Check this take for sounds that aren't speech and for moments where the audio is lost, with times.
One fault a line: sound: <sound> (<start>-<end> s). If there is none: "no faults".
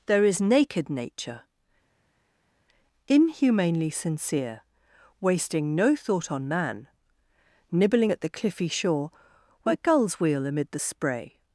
no faults